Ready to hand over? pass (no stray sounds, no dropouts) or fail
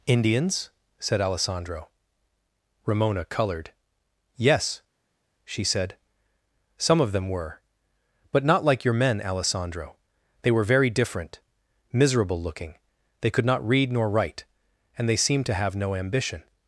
pass